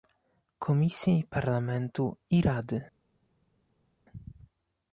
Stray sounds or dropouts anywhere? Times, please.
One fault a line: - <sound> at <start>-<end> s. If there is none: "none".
none